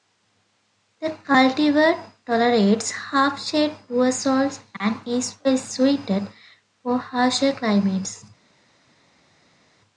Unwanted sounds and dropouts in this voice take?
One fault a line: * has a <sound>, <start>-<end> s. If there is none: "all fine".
all fine